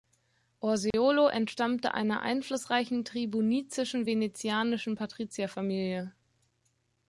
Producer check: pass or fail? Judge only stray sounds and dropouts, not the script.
fail